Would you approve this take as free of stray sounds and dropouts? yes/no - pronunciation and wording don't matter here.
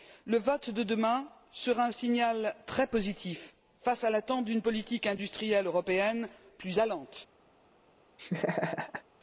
no